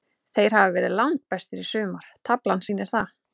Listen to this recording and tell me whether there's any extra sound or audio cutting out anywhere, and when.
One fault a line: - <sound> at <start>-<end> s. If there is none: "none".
none